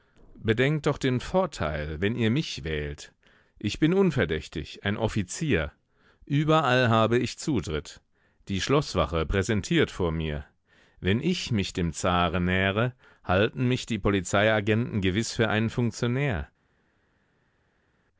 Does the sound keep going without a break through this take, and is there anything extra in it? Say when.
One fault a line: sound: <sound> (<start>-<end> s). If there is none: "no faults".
no faults